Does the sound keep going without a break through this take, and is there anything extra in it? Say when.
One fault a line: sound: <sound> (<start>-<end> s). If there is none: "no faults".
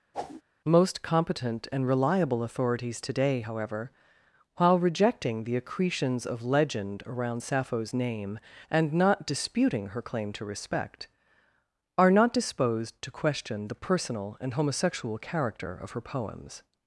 sound: whoosh (0.1-0.4 s)